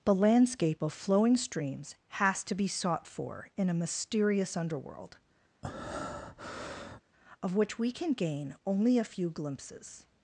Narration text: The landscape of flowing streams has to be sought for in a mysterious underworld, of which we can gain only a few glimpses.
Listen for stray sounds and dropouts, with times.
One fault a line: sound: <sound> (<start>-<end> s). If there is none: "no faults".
sound: breath (5.6-7.0 s)